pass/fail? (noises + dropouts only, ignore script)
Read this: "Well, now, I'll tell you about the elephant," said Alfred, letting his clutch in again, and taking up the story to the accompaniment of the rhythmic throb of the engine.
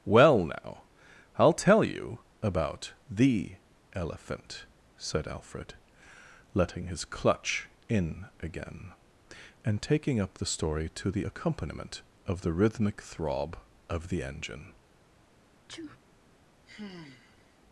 fail